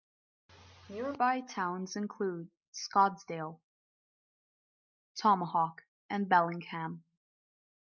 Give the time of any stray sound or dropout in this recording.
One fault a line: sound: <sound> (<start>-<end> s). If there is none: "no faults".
no faults